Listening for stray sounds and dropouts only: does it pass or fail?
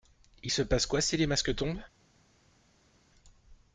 pass